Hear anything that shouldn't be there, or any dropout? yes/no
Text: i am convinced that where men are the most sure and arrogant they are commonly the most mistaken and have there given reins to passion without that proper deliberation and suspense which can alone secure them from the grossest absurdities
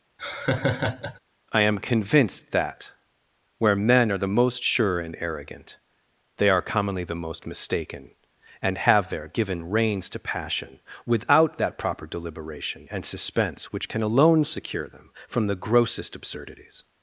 yes